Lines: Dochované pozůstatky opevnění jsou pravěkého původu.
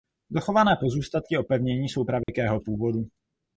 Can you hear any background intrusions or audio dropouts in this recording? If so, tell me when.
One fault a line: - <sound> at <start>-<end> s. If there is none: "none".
- dropout at 2.2-2.3 s